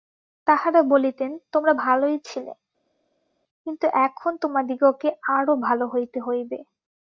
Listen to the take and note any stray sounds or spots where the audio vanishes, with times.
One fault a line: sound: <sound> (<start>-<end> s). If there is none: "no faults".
no faults